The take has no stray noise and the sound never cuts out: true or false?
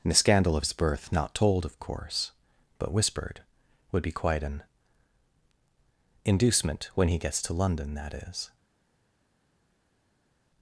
true